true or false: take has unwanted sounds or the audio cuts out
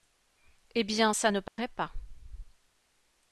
true